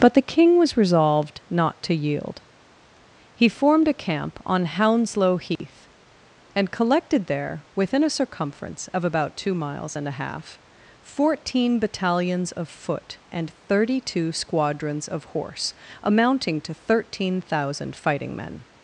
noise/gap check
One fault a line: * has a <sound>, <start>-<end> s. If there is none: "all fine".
* has a dropout, 5.6-5.6 s